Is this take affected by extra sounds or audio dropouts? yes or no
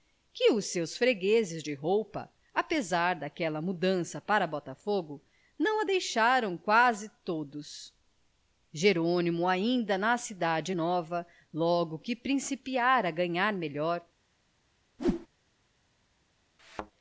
yes